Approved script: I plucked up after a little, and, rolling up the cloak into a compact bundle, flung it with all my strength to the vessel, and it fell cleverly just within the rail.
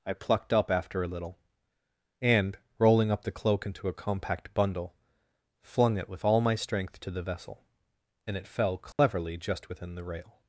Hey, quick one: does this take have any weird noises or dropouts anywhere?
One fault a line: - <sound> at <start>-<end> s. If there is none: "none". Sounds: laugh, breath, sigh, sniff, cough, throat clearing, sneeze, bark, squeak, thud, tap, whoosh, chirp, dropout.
- dropout at 8.9-9.0 s